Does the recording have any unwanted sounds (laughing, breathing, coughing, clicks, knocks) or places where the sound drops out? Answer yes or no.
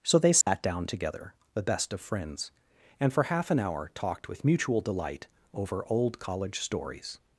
yes